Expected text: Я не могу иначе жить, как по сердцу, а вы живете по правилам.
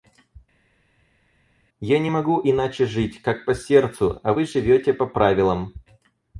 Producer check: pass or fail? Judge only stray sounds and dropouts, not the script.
pass